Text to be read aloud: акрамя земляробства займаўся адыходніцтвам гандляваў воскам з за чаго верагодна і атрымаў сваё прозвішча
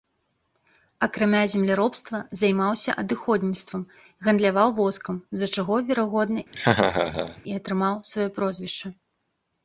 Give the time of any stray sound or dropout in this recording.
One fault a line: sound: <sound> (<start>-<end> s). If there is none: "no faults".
sound: laugh (6.5-7.4 s)